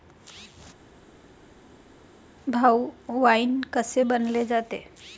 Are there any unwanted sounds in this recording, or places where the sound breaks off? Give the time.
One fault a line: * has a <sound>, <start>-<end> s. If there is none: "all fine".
all fine